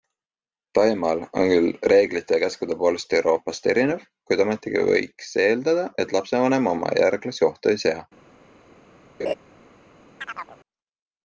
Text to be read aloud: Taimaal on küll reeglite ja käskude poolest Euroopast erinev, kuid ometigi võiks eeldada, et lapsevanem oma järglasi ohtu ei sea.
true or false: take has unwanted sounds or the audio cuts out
true